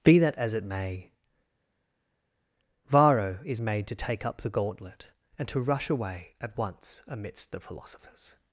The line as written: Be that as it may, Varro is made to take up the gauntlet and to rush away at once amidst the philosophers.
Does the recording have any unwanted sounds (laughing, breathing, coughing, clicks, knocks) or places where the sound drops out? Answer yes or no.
no